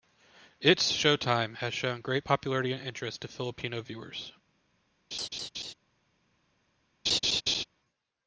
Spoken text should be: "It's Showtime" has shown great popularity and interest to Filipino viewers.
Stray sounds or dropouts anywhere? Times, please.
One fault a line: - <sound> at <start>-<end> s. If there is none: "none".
- laugh at 5.1-5.7 s
- laugh at 7.1-7.6 s